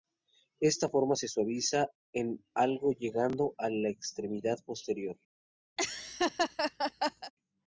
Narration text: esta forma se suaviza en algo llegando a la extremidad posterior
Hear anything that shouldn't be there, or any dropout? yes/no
yes